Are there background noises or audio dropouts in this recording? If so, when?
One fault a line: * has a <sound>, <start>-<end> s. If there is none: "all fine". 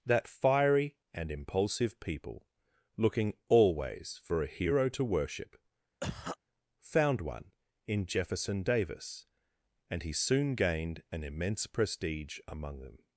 * has a cough, 6.0-6.4 s